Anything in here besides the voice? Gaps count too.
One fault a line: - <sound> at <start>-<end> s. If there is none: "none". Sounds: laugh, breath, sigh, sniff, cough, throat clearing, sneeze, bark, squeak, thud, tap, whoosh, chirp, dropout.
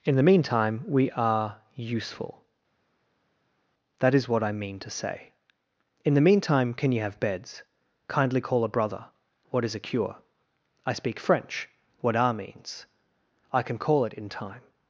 none